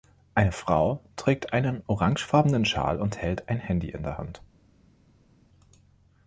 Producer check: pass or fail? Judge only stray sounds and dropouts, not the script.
pass